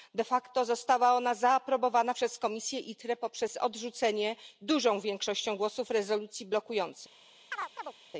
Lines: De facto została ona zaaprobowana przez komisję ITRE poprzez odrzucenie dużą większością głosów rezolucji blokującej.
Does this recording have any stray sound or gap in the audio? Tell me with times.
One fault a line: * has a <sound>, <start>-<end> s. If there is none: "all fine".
* has a chirp, 7.5-7.9 s